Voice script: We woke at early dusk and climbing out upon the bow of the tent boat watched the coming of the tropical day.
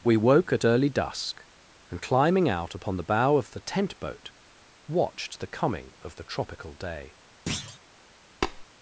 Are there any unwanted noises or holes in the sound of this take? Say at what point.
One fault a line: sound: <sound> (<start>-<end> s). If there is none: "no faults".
sound: thud (7.5-7.8 s)
sound: tap (8.4-8.6 s)